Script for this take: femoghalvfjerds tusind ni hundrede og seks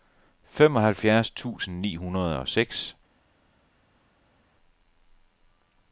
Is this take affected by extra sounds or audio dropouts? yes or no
no